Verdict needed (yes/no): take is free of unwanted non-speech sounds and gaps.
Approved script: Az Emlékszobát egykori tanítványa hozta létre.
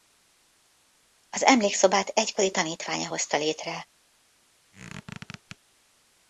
no